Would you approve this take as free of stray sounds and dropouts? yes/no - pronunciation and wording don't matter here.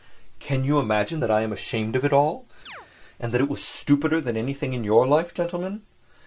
no